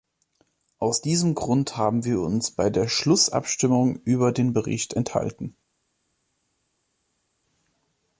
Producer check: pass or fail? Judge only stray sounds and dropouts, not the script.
pass